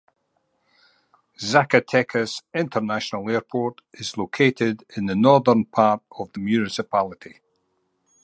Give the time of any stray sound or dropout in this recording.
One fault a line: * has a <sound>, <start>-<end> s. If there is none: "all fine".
all fine